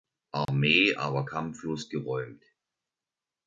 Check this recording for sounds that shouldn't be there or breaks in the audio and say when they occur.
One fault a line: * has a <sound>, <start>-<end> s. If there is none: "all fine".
* has a dropout, 0.5-0.5 s